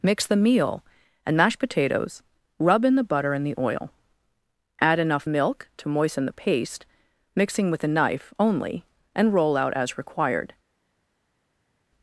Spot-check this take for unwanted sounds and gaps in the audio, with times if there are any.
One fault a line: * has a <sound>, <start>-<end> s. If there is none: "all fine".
all fine